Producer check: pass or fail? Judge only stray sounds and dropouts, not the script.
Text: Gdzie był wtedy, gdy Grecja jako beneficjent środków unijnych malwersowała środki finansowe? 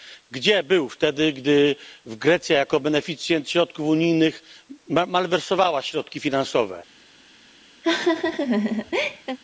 fail